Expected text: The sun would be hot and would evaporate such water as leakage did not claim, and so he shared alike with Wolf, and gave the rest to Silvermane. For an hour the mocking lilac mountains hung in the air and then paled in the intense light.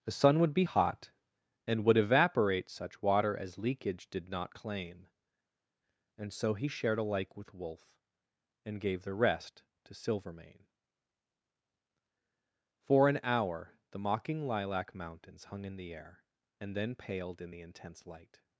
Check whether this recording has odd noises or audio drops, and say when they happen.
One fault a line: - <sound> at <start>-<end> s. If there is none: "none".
none